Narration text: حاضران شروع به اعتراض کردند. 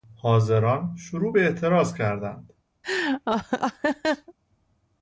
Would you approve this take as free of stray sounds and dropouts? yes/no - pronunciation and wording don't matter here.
no